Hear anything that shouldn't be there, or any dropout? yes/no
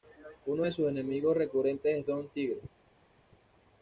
no